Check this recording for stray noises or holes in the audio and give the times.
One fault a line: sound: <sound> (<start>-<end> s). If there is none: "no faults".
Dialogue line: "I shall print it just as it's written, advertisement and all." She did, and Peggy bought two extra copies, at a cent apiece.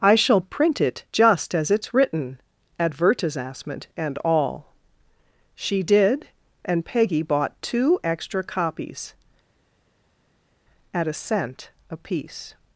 no faults